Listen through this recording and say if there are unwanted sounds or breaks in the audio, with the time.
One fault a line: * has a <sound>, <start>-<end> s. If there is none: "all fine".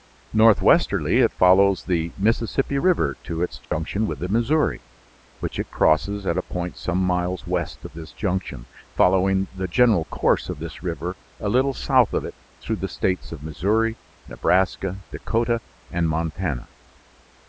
* has a dropout, 3.6-3.7 s